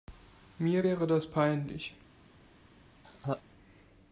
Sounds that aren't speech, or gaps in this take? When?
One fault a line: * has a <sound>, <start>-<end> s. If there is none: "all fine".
* has a laugh, 3.0-3.4 s